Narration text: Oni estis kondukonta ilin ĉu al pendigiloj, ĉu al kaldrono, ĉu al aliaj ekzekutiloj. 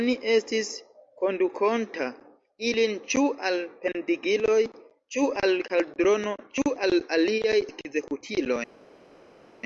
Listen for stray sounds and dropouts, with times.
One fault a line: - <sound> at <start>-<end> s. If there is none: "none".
none